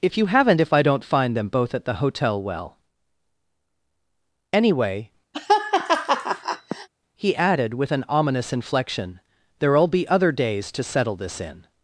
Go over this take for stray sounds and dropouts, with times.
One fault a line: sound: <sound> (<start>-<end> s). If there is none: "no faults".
sound: laugh (5.3-6.9 s)